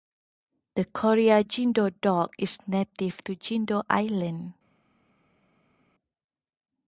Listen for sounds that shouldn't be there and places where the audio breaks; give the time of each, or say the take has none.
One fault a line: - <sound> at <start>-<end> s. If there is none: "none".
none